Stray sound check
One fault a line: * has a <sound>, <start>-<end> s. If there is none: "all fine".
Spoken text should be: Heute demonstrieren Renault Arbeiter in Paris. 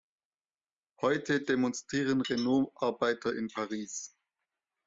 all fine